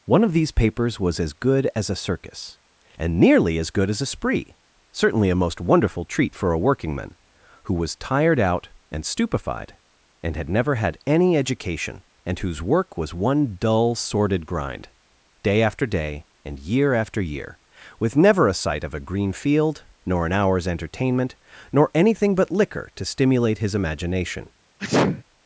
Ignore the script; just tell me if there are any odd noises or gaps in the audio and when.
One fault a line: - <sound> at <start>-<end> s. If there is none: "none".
- sneeze at 24.8-25.2 s